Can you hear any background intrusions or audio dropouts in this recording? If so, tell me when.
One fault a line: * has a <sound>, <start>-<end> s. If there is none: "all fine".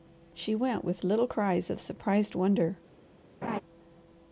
* has a laugh, 3.4-3.6 s